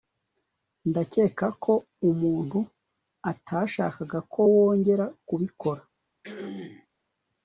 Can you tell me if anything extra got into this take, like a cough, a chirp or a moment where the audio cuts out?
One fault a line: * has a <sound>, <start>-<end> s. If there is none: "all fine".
* has a throat clearing, 6.2-6.9 s